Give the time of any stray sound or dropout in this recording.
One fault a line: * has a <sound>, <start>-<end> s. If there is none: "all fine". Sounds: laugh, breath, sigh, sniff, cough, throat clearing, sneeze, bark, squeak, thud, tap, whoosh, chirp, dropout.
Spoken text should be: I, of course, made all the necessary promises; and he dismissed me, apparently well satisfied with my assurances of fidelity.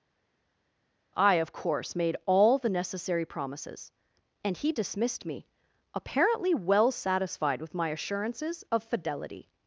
all fine